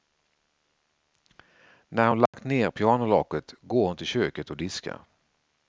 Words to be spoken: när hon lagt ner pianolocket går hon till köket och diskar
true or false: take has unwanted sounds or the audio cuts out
true